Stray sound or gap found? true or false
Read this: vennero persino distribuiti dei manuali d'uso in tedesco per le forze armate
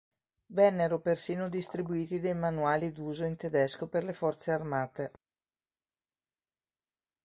false